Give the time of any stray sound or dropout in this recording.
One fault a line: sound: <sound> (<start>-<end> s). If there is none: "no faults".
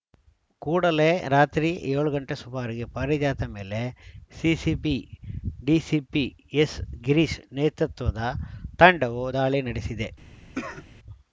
sound: cough (10.5-10.9 s)